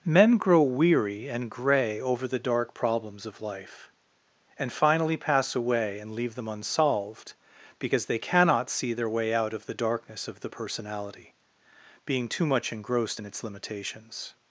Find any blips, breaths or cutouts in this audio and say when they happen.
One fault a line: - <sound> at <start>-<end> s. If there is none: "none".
none